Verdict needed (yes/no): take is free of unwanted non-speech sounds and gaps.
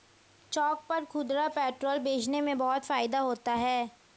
yes